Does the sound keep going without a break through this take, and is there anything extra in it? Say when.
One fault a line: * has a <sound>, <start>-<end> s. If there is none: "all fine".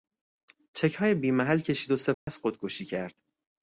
* has a dropout, 2.1-2.3 s